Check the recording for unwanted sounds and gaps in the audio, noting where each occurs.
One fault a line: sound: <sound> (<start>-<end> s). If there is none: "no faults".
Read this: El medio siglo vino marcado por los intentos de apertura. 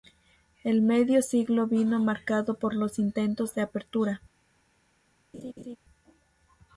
sound: laugh (5.3-5.8 s)